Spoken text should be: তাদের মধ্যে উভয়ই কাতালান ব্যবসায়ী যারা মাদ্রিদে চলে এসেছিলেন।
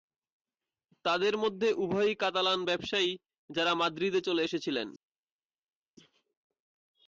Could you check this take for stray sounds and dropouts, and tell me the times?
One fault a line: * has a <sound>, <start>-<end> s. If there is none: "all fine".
all fine